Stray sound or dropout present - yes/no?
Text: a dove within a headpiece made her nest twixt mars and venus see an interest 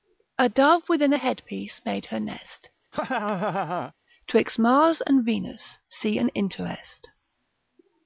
yes